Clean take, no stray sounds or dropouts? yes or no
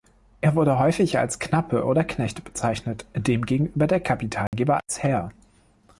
no